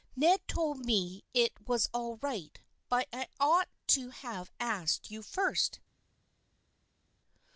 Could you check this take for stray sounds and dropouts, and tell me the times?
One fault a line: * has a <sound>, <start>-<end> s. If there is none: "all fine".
all fine